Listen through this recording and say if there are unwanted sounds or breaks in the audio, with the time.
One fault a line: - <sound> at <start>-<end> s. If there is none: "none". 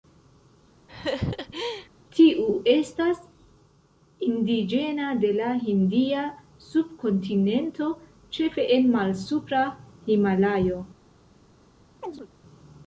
- laugh at 0.9-1.9 s
- chirp at 12.0-12.3 s